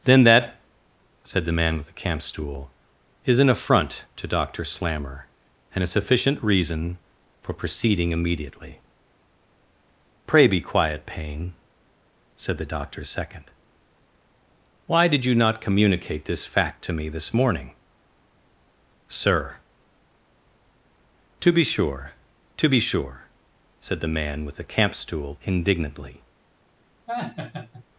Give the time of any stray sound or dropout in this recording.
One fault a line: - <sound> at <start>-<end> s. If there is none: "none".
- laugh at 27.1-27.8 s